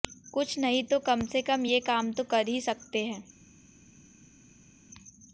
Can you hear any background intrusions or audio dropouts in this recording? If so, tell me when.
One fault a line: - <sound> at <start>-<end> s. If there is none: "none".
none